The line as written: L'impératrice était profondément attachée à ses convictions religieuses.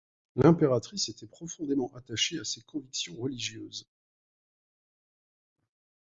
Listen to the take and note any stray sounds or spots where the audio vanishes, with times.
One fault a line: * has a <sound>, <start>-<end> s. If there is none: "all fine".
all fine